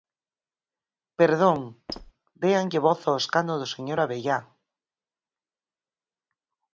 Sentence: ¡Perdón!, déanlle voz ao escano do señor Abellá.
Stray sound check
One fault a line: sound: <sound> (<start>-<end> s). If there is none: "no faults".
sound: squeak (1.9-2.1 s)